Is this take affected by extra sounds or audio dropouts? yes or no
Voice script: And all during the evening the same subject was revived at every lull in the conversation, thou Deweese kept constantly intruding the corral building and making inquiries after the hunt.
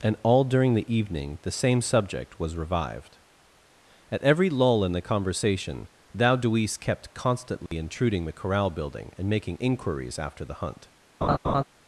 yes